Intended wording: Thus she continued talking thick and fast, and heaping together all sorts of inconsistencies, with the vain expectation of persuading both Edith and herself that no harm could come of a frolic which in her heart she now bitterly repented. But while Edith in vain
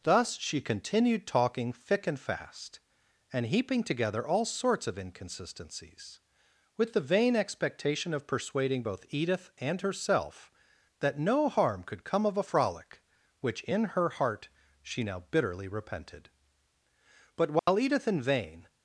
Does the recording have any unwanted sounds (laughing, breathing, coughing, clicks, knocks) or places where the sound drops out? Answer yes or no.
yes